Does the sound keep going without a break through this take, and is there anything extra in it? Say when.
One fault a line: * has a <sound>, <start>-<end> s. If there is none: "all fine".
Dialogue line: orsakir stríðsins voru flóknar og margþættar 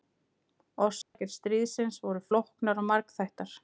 * has a dropout, 1.0-1.1 s